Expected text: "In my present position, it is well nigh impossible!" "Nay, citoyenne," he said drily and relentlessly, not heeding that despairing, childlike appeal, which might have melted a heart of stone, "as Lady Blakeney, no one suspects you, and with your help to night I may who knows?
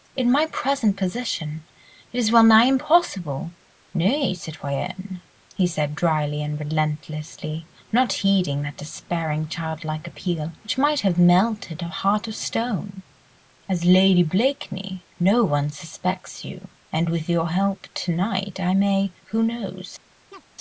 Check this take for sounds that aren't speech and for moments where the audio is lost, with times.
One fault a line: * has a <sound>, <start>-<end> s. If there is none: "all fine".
* has a chirp, 20.3-20.4 s